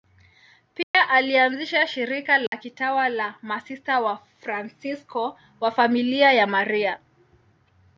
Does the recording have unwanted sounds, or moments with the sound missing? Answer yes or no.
yes